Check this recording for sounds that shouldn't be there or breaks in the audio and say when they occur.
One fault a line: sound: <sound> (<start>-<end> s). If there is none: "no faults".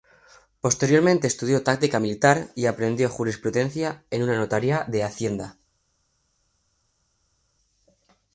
no faults